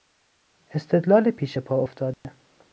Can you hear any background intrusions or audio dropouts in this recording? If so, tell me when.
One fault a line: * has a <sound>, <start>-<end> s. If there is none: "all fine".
* has a dropout, 2.1-2.2 s